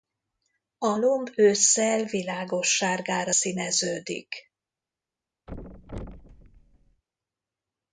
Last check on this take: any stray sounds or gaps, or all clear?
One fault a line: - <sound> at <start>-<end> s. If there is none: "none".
- thud at 5.5-7.0 s